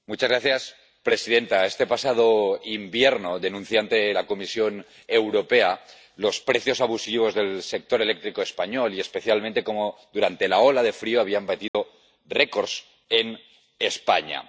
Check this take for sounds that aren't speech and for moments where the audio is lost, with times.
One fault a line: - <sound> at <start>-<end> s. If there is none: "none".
- dropout at 11.7-11.7 s